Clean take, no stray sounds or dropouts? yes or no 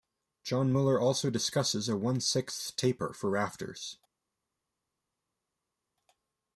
yes